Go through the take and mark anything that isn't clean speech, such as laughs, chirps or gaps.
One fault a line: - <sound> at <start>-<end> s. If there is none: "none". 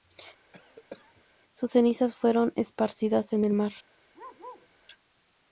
- cough at 0.5-1.2 s
- bark at 4.1-4.7 s